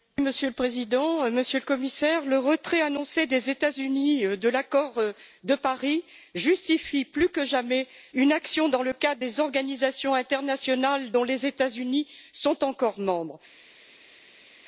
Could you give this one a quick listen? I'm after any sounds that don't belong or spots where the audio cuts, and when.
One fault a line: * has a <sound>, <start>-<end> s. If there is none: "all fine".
all fine